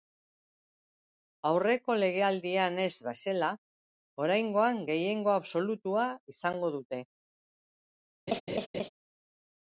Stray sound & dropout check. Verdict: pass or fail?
fail